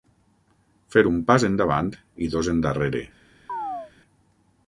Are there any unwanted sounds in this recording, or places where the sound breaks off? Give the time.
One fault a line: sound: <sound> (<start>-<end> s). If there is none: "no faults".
sound: chirp (3.5-3.9 s)